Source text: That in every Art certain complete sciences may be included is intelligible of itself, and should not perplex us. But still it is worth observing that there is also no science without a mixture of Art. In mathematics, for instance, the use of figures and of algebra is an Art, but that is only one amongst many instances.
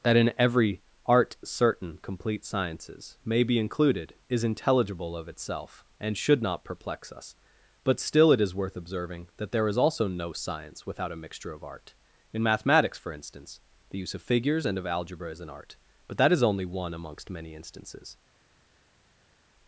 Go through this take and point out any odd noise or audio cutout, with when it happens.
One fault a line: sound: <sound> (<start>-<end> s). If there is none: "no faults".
no faults